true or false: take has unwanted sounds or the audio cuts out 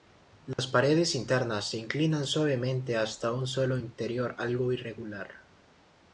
true